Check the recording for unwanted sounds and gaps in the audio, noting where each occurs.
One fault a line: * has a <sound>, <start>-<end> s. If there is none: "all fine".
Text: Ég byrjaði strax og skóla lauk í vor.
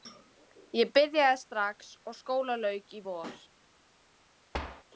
* has a thud, 4.5-4.8 s